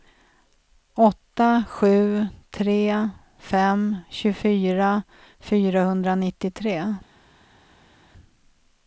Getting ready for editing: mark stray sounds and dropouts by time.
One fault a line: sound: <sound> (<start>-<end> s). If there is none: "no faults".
no faults